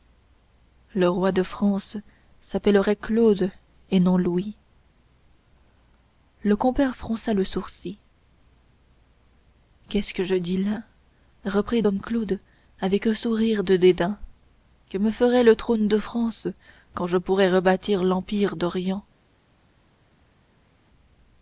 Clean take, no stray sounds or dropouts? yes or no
yes